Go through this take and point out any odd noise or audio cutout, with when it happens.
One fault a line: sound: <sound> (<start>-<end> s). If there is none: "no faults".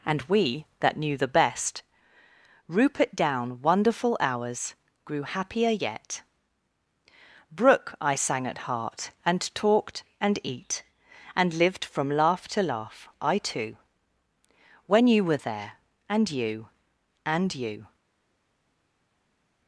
no faults